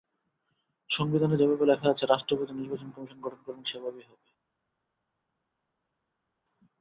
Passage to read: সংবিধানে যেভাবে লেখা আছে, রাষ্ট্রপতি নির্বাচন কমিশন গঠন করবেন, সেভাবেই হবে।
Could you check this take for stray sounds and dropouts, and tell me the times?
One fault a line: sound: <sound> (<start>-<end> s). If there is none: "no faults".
no faults